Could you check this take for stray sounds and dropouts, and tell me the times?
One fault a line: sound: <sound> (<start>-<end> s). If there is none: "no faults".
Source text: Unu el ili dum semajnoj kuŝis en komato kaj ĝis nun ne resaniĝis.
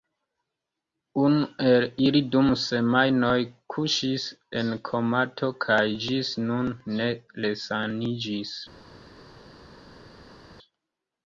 no faults